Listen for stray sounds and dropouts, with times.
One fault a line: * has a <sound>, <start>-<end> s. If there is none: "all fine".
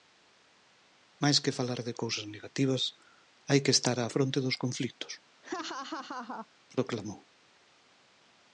* has a laugh, 5.4-6.5 s